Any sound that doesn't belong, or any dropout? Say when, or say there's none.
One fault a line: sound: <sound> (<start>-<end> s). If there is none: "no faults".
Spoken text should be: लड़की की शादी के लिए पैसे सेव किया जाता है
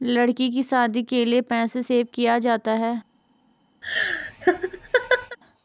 sound: laugh (3.8-5.4 s)